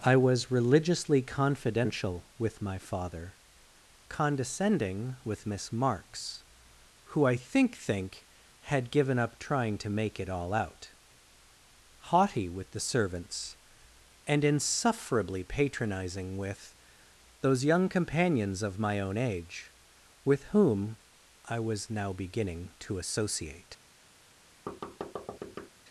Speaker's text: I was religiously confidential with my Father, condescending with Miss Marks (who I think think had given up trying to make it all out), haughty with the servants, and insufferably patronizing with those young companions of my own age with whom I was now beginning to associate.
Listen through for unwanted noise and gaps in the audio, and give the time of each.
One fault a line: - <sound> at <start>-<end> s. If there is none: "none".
- thud at 24.7-25.7 s